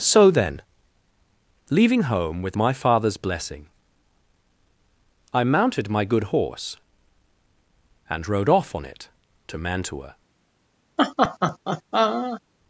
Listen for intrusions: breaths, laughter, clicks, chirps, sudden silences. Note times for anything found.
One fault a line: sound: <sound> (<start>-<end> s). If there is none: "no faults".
sound: laugh (11.0-12.4 s)